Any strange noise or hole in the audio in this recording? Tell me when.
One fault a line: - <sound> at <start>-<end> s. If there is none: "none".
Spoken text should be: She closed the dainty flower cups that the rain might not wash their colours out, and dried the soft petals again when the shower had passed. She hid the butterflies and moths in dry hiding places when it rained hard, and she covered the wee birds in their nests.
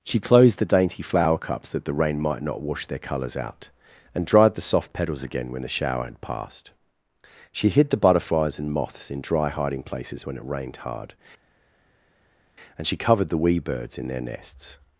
none